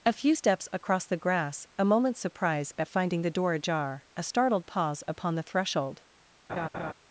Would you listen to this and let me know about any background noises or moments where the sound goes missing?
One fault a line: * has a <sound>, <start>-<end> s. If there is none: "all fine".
* has a laugh, 6.5-6.9 s